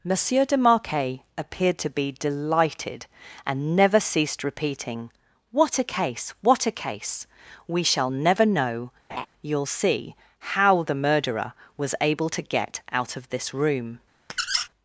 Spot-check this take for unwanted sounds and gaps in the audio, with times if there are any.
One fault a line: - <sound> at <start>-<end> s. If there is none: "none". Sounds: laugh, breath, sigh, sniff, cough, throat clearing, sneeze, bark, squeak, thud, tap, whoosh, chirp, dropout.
- laugh at 9.1-9.3 s
- squeak at 14.3-14.7 s